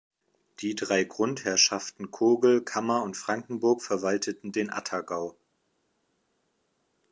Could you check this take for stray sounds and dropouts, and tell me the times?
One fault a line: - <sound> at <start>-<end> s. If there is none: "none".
none